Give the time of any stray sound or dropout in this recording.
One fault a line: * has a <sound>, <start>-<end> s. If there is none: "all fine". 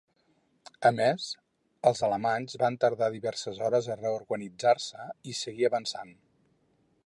all fine